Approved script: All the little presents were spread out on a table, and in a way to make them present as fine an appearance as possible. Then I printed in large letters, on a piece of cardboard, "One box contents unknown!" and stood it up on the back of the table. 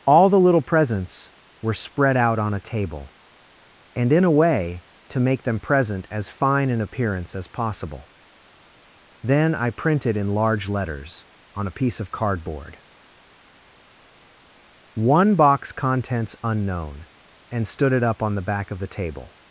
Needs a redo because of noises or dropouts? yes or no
no